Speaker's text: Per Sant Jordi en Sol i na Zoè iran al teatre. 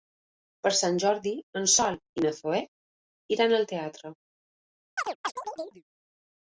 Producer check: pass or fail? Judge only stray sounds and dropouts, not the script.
fail